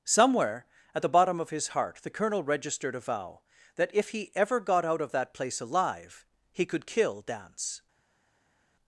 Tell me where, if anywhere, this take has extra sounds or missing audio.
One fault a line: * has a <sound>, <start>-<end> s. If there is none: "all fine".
all fine